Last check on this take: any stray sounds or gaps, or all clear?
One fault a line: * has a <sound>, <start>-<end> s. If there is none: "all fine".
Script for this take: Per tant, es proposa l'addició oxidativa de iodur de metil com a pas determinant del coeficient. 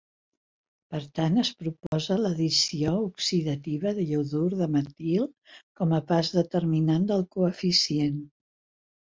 * has a dropout, 1.9-1.9 s